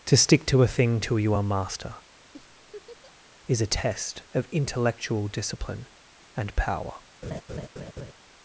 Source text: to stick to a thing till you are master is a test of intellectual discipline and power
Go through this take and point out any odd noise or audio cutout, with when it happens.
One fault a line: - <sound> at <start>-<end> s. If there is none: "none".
- laugh at 2.3-3.1 s
- laugh at 7.2-8.1 s